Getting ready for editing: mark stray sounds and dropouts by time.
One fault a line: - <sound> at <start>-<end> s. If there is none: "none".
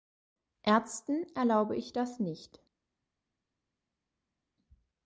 none